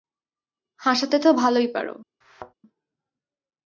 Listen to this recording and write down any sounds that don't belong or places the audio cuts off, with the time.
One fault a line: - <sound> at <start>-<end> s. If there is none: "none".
- thud at 2.2-2.5 s